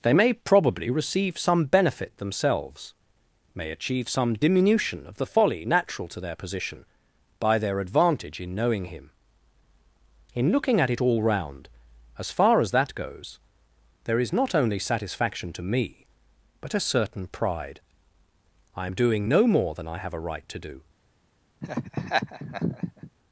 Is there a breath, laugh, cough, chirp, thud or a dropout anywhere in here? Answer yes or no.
yes